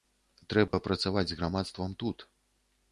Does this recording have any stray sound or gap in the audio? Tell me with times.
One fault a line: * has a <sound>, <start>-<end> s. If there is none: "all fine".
* has a dropout, 0.7-0.7 s